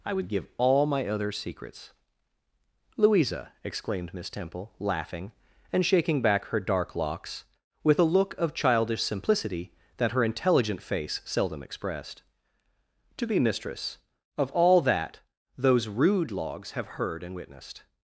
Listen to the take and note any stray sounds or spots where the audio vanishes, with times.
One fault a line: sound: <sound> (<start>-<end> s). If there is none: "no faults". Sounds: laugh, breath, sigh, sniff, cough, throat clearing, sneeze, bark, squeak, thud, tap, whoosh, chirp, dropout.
no faults